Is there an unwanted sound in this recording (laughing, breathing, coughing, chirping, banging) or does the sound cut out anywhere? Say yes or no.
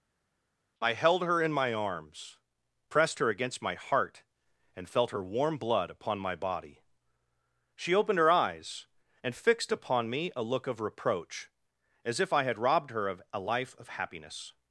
no